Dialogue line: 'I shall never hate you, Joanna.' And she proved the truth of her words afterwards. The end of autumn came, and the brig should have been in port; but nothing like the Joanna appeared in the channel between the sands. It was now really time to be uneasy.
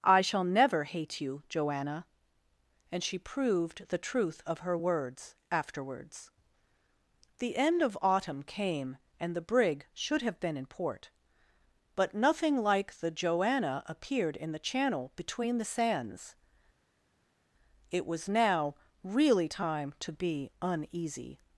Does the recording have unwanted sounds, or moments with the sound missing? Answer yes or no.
no